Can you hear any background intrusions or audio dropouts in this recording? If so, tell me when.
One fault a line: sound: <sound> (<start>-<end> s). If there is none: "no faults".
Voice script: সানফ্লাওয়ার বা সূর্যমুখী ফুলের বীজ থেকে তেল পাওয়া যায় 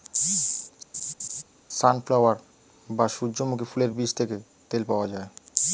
sound: laugh (0.9-1.4 s)